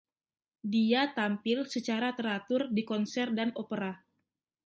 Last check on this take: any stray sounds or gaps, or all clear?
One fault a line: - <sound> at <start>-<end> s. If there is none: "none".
none